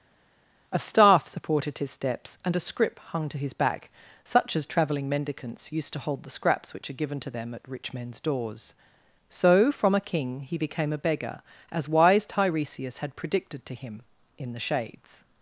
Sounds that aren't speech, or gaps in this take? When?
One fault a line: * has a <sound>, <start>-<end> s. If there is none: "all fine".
all fine